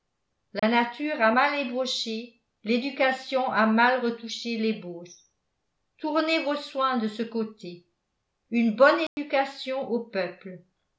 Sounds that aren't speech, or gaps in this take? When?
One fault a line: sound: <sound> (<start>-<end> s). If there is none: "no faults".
sound: dropout (0.6-0.6 s)
sound: dropout (9.1-9.2 s)